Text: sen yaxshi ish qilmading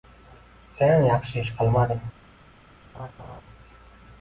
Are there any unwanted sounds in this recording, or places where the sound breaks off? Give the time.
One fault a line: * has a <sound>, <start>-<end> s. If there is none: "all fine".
* has a laugh, 2.9-3.4 s